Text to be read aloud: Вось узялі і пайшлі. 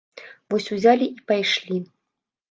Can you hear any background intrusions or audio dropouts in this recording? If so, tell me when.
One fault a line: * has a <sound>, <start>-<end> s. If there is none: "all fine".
all fine